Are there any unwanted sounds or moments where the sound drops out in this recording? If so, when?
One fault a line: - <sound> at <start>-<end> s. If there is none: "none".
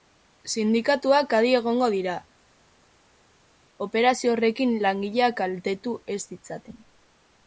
none